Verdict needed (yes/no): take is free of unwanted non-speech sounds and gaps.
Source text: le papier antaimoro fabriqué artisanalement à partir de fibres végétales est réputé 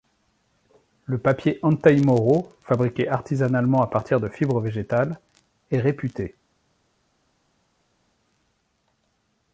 yes